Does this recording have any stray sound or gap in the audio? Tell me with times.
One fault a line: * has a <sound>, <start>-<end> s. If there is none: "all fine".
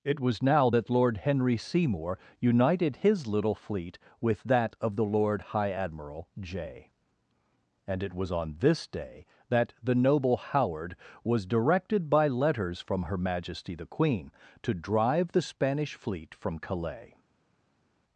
all fine